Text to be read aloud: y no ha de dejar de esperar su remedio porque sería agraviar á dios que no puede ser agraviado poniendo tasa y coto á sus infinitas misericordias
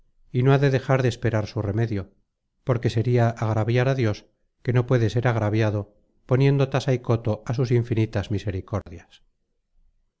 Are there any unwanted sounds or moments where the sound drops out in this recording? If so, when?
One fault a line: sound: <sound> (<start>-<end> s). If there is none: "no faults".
sound: dropout (8.8-8.9 s)